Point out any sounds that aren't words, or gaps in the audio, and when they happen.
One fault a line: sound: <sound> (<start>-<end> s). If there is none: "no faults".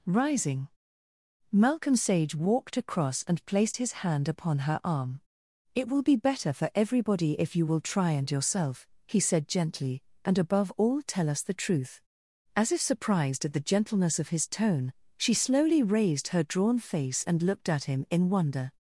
no faults